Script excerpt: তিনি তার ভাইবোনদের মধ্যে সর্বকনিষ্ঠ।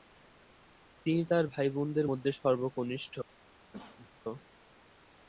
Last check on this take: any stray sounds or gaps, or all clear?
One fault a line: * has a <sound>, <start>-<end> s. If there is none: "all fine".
* has a cough, 3.7-4.1 s